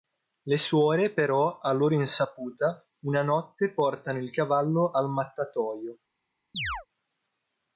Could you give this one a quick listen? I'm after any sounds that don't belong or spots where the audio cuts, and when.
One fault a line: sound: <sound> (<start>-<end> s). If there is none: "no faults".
sound: chirp (6.5-6.9 s)